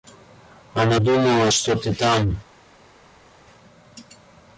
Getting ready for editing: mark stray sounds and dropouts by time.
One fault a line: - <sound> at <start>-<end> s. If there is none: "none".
none